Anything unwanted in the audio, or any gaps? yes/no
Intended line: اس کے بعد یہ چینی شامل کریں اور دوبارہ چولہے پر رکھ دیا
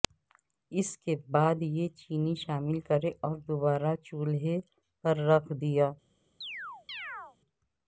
yes